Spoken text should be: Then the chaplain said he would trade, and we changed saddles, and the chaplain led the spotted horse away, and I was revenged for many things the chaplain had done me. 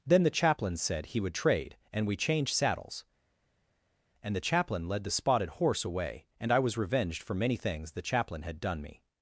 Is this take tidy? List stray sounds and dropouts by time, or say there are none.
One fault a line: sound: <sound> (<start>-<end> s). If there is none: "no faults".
no faults